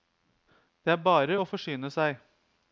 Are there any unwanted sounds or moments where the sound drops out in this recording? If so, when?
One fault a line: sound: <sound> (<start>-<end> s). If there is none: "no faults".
no faults